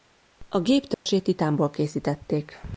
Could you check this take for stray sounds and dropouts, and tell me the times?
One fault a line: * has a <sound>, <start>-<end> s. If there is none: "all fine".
* has a dropout, 0.9-1.1 s